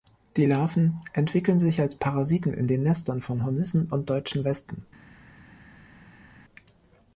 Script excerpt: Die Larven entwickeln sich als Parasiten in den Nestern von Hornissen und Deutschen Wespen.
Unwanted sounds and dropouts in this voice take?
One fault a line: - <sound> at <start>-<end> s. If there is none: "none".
none